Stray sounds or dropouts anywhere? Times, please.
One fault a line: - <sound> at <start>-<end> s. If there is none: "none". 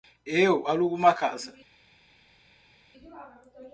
none